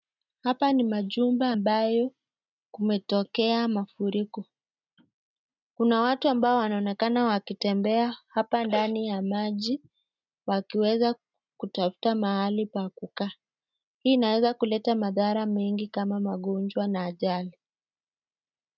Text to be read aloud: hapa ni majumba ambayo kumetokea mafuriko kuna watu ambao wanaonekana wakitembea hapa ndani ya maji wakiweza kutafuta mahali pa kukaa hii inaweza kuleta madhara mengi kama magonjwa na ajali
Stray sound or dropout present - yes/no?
no